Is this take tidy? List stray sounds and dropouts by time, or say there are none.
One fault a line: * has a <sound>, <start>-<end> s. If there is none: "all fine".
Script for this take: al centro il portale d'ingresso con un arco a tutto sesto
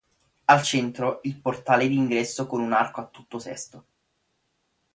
all fine